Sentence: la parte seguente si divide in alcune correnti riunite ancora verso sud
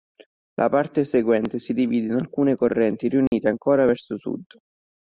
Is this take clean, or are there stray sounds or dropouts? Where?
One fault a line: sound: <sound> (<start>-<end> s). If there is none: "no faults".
sound: dropout (3.3-3.3 s)